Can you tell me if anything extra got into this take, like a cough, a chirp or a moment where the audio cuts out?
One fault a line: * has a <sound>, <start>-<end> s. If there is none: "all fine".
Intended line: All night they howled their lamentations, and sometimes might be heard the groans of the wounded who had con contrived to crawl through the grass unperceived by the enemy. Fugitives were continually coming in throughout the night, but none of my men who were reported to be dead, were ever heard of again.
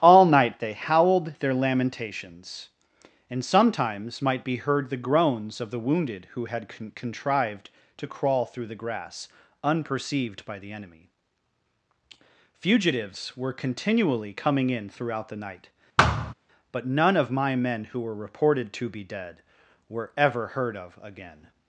* has a thud, 16.0-16.3 s